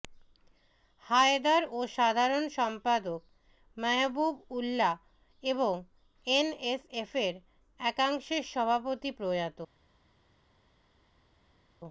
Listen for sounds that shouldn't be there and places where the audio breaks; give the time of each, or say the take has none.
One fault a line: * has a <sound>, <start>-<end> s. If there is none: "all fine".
all fine